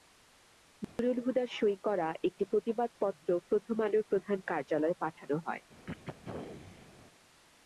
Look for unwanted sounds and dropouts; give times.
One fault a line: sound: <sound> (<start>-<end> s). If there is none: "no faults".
sound: dropout (0.8-1.0 s)
sound: throat clearing (5.9-6.9 s)